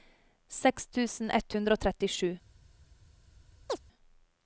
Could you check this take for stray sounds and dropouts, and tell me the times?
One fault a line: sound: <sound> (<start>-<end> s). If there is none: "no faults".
sound: chirp (3.7-3.8 s)